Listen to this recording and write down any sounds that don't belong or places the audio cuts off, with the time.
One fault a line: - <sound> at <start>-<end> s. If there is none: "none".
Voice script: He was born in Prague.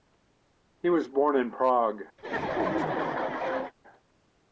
- laugh at 2.2-3.7 s